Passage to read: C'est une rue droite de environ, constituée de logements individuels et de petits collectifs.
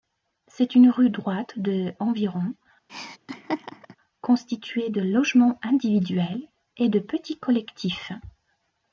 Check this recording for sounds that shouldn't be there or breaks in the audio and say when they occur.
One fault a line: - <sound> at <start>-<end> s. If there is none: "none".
- laugh at 2.9-4.0 s